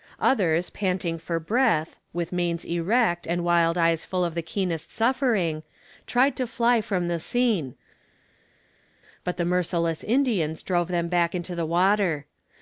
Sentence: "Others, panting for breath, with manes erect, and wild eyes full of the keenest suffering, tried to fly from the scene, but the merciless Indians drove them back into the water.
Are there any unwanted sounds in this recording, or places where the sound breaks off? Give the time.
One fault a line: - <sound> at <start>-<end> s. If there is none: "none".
none